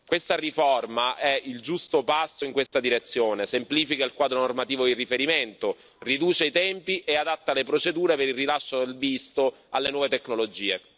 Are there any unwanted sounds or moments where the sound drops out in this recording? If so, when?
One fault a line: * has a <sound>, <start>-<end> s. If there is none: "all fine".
* has a dropout, 2.7-2.7 s